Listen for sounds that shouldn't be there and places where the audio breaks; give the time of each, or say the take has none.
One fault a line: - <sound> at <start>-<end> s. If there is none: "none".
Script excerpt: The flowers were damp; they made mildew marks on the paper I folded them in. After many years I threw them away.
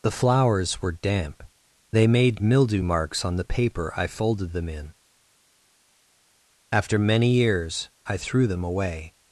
none